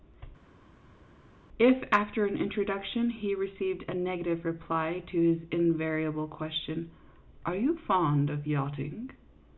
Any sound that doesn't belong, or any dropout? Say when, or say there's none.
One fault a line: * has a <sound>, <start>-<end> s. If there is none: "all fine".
all fine